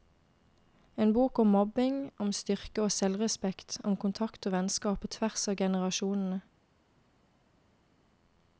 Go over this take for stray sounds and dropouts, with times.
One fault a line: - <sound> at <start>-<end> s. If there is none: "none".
none